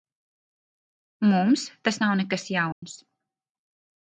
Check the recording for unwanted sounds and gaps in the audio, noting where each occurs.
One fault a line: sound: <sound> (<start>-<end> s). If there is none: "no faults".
sound: dropout (2.7-2.8 s)